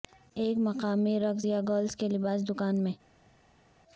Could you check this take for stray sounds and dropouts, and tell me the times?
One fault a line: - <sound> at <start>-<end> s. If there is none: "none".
none